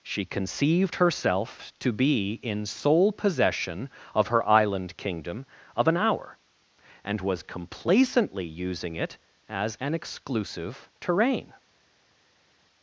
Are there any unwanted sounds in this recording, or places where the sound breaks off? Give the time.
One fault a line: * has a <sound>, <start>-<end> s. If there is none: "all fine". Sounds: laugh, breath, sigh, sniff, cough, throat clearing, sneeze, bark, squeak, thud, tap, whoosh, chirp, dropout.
all fine